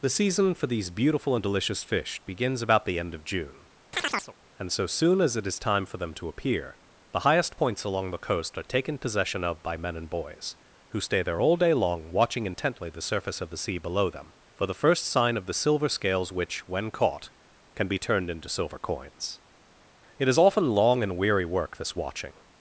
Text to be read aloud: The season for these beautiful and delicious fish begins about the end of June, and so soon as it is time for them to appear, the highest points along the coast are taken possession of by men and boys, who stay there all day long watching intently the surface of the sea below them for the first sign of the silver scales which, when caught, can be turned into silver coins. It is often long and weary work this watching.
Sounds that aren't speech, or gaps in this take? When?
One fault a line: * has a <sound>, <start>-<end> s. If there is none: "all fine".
* has a chirp, 3.9-4.3 s